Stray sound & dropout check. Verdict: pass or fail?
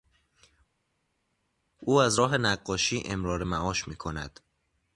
pass